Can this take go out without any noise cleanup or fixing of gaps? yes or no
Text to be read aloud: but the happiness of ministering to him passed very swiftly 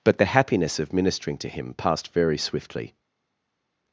yes